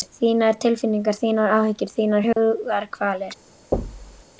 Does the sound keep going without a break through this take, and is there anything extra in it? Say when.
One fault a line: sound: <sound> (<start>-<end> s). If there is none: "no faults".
sound: dropout (2.3-2.4 s)
sound: thud (3.7-4.2 s)